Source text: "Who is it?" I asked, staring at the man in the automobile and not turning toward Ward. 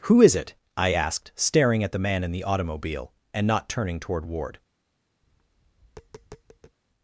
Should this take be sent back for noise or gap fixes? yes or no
yes